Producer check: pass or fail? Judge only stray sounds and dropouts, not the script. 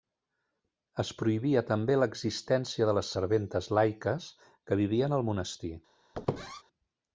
fail